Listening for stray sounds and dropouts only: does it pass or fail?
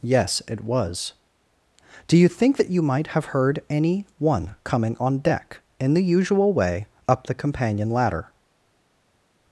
pass